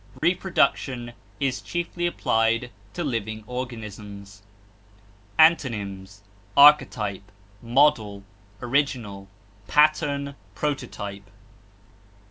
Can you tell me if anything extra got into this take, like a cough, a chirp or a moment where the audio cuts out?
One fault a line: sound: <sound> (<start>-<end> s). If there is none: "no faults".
sound: dropout (0.2-0.2 s)